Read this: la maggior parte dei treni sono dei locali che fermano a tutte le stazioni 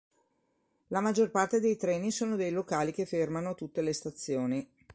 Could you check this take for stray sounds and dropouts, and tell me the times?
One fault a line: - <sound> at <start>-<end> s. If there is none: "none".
none